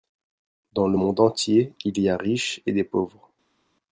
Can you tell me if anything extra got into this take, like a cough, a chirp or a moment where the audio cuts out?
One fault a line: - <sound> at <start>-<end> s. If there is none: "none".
none